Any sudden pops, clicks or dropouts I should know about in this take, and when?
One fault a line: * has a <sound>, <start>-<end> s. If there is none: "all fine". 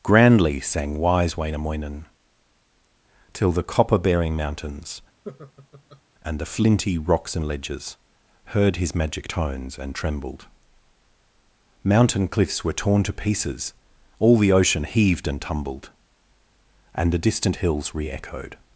* has a laugh, 5.2-6.0 s